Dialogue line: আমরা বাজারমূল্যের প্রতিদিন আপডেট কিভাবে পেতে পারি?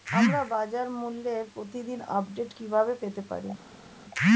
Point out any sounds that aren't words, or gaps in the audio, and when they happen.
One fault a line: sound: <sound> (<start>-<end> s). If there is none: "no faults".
no faults